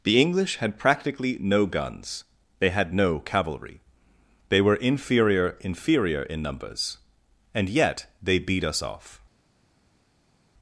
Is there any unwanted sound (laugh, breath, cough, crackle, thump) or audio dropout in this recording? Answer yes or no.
no